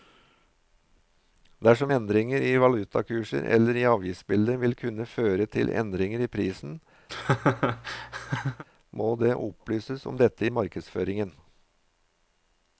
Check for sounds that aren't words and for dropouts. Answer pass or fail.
fail